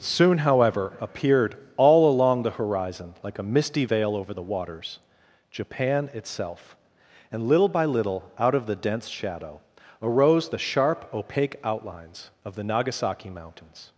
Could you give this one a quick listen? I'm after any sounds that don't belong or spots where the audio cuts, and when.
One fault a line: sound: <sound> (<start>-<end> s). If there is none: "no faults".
no faults